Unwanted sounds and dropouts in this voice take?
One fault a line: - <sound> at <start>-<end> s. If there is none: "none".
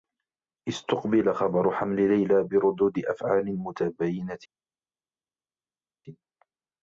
none